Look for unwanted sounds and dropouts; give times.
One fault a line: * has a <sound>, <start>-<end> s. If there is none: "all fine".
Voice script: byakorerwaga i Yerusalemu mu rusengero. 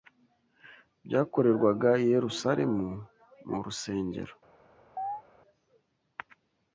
* has a chirp, 5.0-5.2 s